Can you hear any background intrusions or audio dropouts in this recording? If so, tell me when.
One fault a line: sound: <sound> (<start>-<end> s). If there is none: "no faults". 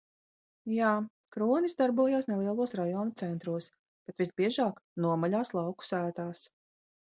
no faults